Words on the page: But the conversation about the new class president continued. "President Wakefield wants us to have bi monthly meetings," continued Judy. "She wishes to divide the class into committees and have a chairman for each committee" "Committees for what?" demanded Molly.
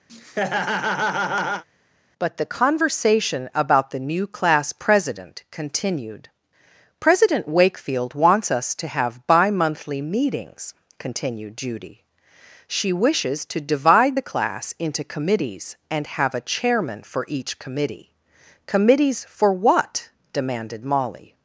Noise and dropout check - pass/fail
fail